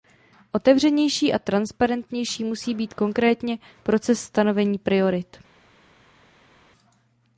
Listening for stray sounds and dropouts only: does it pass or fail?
pass